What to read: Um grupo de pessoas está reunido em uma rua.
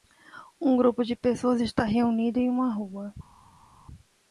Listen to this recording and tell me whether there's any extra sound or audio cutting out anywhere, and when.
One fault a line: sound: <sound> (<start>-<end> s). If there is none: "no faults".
no faults